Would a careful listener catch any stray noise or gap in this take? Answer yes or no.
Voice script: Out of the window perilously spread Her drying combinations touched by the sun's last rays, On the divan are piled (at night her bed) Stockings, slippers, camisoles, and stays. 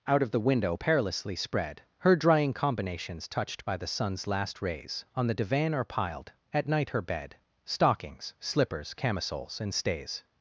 no